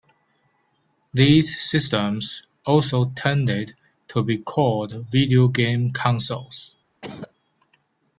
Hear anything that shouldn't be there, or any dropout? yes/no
yes